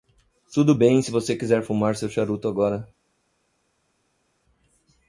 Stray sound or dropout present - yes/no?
no